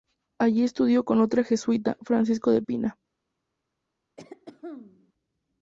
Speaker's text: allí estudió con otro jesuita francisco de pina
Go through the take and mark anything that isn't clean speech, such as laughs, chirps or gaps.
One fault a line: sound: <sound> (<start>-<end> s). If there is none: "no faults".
sound: throat clearing (4.2-5.1 s)